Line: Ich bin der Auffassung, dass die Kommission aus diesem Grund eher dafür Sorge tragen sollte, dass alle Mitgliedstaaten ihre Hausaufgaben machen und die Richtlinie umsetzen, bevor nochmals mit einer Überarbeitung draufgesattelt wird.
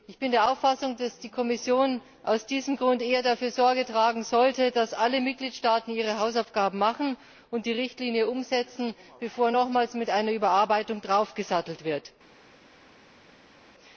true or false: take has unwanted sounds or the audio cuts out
false